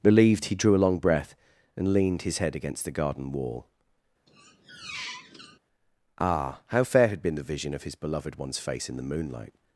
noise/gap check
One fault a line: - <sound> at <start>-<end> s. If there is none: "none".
- squeak at 4.3-5.6 s